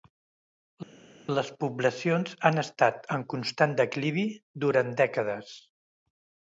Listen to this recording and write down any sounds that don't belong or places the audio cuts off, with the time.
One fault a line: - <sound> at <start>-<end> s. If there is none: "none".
none